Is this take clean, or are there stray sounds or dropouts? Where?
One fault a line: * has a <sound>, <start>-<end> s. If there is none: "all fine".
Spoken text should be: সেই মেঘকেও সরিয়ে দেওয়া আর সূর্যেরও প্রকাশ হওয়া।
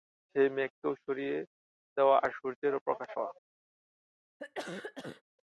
* has a cough, 4.4-5.2 s